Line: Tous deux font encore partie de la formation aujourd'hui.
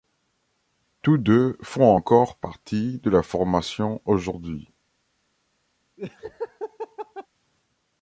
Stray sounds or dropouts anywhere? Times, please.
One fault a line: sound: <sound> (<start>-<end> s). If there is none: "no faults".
sound: laugh (6.0-7.3 s)